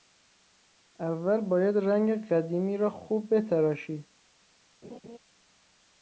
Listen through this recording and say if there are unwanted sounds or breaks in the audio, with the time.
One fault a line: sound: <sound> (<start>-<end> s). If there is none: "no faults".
sound: laugh (4.8-5.2 s)